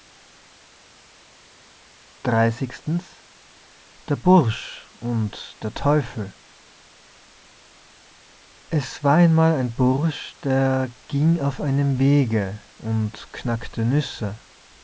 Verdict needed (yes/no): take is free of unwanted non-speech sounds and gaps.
yes